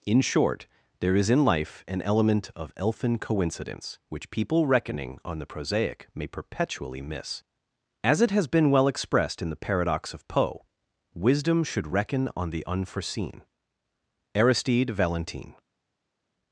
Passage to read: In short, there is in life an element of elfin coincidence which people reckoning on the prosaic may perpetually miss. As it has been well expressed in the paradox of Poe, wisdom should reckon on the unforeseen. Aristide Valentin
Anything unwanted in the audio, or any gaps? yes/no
no